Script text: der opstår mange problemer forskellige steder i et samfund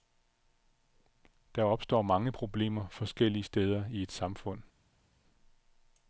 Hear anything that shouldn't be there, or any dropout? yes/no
no